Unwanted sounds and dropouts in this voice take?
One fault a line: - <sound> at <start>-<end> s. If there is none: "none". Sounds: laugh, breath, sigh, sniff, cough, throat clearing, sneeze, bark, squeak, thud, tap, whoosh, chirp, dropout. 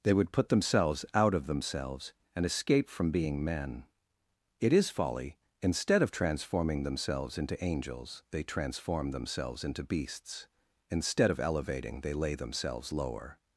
none